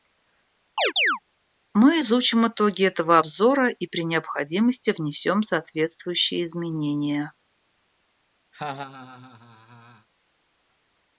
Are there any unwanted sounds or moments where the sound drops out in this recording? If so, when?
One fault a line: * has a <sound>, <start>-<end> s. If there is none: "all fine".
* has a chirp, 0.8-1.2 s
* has a laugh, 8.5-10.1 s